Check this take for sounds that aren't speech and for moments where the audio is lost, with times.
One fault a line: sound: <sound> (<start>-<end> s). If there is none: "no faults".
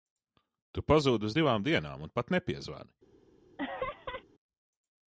sound: laugh (3.6-4.2 s)